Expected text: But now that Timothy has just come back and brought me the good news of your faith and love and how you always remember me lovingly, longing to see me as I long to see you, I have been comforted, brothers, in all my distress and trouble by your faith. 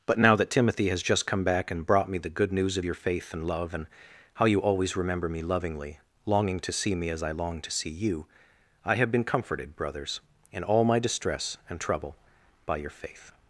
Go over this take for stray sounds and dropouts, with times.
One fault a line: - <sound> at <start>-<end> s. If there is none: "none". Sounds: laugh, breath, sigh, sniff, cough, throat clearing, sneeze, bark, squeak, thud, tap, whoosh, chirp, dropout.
none